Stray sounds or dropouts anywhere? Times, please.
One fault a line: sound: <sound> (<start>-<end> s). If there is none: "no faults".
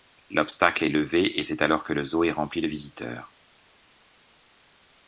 no faults